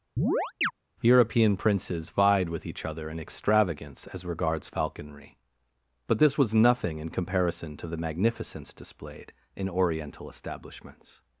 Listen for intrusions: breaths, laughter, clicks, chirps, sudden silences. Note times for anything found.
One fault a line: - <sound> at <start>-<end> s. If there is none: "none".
- chirp at 0.2-0.7 s